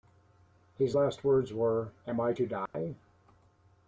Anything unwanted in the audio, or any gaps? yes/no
yes